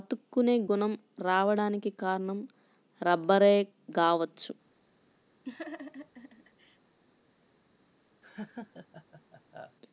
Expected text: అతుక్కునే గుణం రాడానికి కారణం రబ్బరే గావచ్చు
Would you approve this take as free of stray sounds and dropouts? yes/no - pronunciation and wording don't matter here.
no